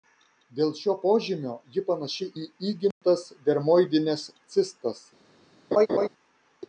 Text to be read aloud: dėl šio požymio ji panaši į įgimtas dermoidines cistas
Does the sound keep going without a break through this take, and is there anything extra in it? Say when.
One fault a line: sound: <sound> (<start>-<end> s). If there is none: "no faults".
sound: dropout (2.9-3.0 s)
sound: laugh (5.7-6.1 s)